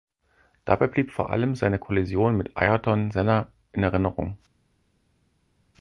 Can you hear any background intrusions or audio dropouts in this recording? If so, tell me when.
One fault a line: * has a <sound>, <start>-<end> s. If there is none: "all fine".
all fine